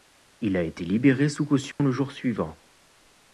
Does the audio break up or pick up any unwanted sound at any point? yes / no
yes